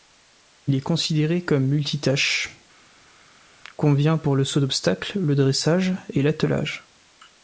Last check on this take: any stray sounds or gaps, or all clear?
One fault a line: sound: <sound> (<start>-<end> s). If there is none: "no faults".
no faults